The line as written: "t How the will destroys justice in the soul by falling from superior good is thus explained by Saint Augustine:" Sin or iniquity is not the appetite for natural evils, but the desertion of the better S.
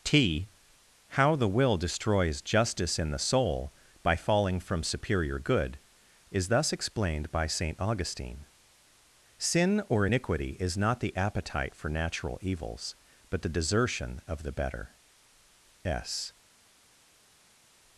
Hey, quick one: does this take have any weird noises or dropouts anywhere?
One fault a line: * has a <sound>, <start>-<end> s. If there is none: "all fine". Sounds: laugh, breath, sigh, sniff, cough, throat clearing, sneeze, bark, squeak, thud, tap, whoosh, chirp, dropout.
all fine